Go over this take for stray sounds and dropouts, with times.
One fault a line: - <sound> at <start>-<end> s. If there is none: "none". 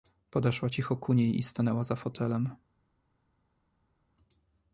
none